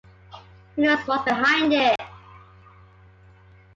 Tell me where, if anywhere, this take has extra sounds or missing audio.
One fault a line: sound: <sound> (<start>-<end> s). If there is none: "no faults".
sound: dropout (2.0-2.0 s)